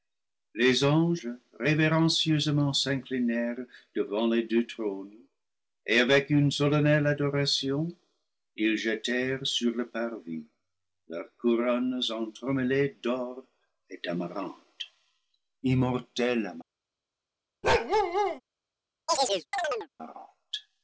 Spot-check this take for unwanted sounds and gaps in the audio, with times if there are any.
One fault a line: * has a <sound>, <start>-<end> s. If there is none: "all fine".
* has a bark, 17.6-18.4 s
* has a chirp, 19.1-19.9 s